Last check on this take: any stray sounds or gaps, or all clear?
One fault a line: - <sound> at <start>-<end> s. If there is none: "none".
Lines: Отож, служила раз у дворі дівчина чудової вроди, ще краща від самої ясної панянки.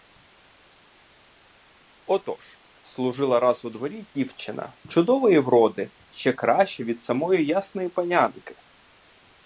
none